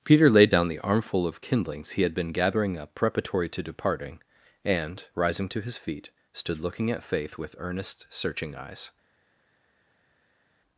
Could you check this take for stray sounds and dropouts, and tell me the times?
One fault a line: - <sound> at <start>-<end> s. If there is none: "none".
none